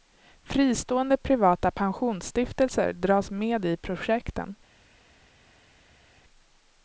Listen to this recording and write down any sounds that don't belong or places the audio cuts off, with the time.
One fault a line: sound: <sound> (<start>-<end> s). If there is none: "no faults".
no faults